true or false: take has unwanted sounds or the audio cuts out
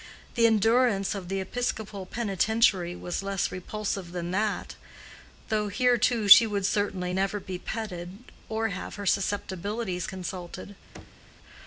true